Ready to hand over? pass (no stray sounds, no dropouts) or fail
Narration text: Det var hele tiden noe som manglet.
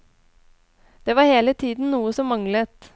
pass